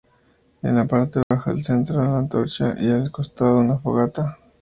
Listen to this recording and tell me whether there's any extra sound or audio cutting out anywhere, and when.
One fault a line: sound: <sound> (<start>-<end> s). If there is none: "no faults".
sound: dropout (1.2-1.3 s)